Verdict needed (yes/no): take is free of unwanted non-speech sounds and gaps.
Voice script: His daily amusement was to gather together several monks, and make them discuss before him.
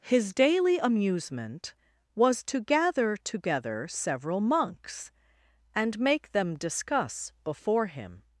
yes